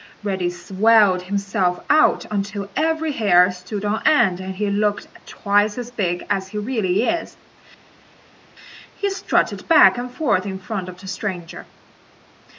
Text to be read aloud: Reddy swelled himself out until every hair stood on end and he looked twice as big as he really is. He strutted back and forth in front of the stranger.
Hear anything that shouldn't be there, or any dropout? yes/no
no